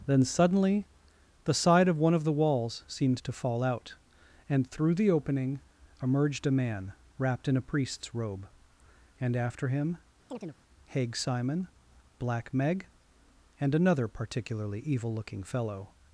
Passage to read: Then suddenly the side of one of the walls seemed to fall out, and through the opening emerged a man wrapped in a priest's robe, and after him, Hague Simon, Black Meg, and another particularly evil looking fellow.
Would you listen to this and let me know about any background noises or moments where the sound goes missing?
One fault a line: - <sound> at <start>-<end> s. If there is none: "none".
- chirp at 10.3-10.6 s